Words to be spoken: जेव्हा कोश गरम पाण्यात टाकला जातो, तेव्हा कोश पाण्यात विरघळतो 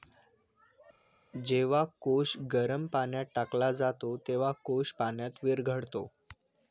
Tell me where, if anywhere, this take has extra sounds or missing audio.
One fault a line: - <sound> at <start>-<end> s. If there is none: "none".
none